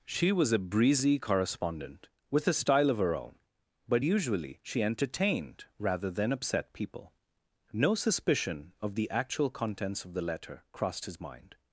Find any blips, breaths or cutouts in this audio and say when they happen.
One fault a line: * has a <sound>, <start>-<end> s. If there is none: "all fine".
all fine